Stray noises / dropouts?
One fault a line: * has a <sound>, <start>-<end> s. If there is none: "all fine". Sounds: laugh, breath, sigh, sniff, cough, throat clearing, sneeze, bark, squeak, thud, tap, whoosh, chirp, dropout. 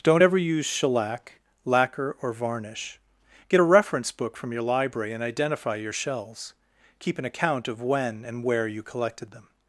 all fine